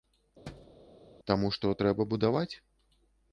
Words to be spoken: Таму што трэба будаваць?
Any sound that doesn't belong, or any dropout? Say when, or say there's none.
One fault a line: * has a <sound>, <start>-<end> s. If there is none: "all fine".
* has a thud, 0.5-0.8 s